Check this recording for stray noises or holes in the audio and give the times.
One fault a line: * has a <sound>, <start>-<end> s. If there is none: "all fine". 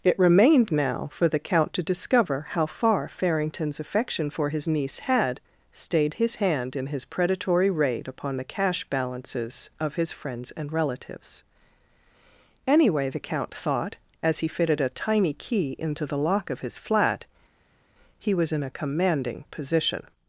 all fine